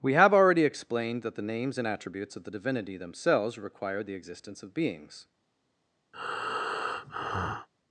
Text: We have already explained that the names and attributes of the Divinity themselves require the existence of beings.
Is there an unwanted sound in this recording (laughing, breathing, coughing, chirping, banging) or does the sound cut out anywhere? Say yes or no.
yes